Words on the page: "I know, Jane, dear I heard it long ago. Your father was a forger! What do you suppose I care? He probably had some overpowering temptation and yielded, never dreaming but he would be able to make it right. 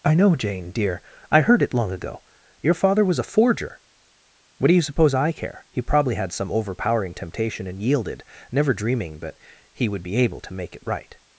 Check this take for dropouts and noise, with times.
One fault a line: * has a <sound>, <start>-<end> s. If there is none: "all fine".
all fine